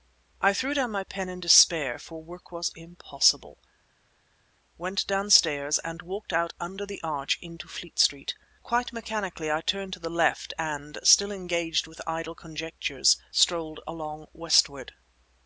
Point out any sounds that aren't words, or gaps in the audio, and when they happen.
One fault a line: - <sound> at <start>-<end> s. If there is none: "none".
none